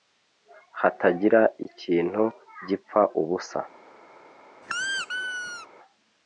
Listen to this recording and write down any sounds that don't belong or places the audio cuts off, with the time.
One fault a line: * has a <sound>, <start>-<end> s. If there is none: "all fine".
* has a squeak, 4.6-5.7 s